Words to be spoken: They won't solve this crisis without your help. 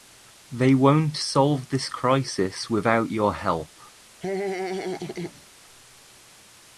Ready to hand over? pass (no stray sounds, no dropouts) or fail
fail